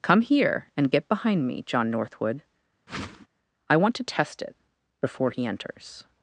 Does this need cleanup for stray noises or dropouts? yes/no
yes